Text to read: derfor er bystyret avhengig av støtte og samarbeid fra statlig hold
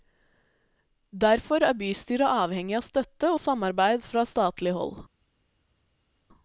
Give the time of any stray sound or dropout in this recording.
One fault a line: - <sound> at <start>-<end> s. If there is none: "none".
none